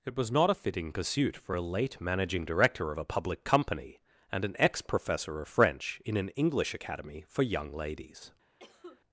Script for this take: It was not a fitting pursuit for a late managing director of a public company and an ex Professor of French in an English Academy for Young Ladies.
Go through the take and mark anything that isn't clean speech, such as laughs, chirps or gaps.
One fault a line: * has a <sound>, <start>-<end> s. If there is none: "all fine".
* has a cough, 8.6-9.0 s